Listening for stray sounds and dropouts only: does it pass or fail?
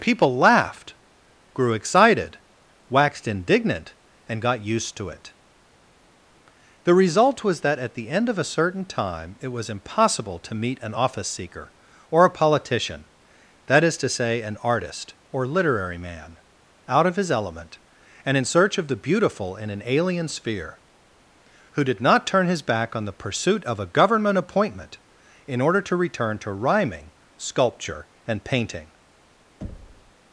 fail